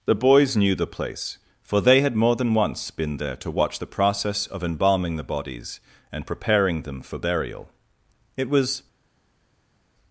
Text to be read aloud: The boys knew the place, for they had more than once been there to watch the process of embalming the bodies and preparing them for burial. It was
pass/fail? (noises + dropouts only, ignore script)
pass